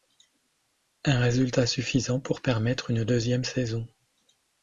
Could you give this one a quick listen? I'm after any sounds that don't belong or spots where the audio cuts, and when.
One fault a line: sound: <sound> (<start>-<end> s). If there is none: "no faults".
no faults